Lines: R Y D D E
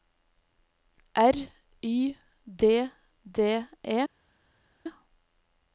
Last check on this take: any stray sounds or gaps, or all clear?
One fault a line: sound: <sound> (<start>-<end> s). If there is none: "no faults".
no faults